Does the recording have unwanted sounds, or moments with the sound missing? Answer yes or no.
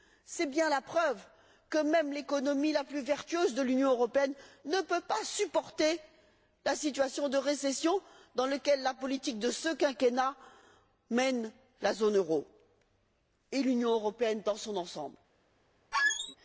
yes